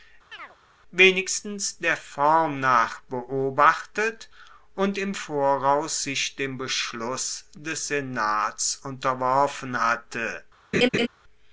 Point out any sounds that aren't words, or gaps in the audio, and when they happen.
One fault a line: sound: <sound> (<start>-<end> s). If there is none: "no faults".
sound: chirp (0.3-0.6 s)
sound: laugh (10.7-11.1 s)